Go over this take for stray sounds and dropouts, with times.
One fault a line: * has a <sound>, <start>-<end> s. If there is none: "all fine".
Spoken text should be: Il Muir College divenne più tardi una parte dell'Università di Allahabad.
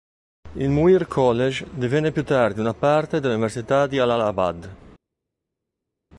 all fine